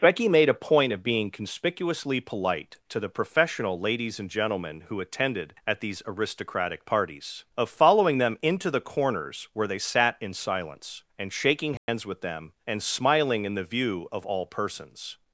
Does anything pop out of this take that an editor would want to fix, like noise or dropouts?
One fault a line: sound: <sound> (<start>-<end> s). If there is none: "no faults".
sound: dropout (11.8-11.9 s)